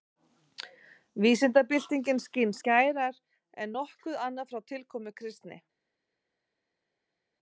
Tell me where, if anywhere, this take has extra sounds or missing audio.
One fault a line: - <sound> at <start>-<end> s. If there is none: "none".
none